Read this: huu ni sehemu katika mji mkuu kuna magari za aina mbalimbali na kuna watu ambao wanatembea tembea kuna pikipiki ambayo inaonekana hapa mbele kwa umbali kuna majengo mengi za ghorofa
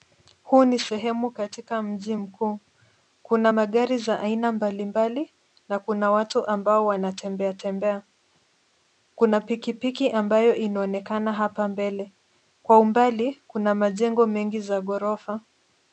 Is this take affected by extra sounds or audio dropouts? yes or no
no